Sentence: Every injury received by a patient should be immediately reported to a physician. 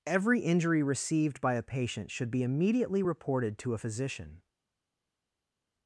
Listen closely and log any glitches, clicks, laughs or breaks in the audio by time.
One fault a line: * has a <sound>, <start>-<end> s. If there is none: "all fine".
all fine